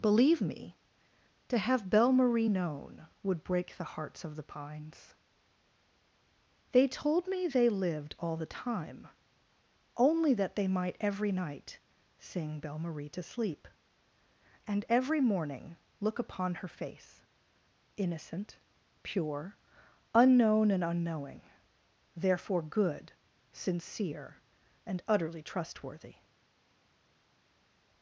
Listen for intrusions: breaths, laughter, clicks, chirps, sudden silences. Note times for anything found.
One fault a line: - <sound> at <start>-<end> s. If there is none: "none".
none